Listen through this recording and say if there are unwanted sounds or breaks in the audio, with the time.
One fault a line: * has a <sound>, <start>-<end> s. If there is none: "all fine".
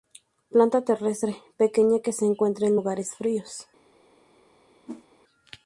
* has a whoosh, 4.9-5.1 s